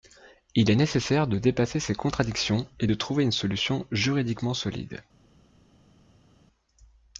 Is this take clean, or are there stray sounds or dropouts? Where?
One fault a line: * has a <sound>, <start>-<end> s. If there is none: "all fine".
all fine